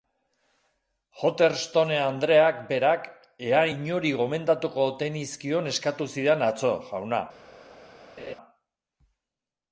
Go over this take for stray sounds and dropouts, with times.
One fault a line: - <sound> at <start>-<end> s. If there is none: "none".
- laugh at 8.2-8.4 s